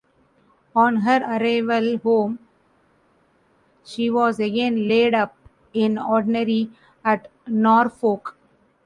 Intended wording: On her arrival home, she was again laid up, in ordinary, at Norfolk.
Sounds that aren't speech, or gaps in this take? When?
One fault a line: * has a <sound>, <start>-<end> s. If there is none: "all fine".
all fine